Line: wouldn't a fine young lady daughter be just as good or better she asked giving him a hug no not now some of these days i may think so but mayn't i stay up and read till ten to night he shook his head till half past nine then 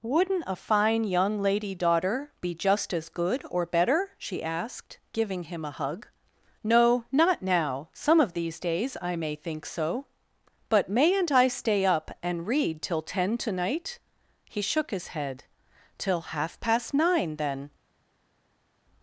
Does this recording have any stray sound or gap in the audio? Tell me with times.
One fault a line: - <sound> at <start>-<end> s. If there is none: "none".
none